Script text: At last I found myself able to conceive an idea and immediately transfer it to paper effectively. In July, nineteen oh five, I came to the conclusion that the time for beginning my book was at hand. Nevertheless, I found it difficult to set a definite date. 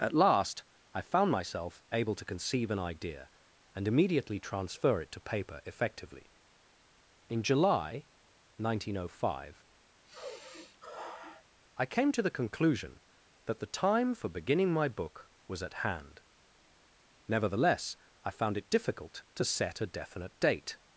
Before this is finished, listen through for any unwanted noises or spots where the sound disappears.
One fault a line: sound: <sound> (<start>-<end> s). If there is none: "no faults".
sound: sigh (10.0-11.4 s)